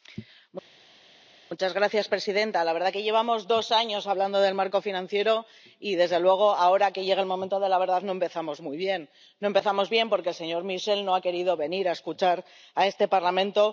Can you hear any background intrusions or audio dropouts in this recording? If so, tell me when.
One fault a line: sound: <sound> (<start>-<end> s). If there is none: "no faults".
no faults